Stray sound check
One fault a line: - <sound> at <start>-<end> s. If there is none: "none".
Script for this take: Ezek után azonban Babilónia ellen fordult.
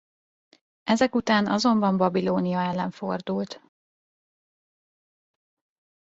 none